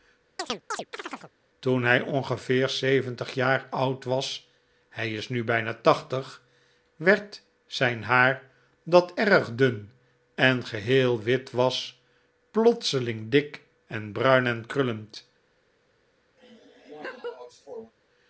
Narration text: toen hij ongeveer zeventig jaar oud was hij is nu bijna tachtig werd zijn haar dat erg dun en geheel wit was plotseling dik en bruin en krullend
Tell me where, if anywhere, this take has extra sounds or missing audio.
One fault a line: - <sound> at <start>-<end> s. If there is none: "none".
- chirp at 0.4-1.3 s
- laugh at 16.4-17.9 s